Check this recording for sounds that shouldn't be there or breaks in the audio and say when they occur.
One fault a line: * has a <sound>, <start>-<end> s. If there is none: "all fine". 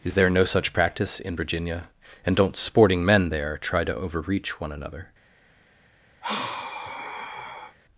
* has a sigh, 6.2-7.8 s